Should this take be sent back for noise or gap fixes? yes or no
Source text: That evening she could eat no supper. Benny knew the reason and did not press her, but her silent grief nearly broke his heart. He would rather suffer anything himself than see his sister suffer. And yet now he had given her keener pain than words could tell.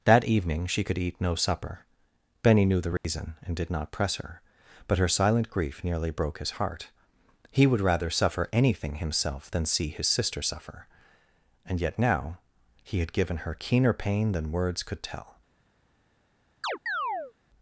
yes